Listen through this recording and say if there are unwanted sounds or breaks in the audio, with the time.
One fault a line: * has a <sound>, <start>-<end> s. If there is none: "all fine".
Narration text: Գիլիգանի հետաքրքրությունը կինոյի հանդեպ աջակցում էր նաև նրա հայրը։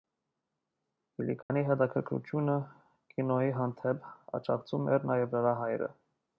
* has a dropout, 1.4-1.5 s